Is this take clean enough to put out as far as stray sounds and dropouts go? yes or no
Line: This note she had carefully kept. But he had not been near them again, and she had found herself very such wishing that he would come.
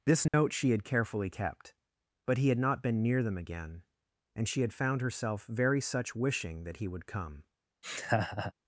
no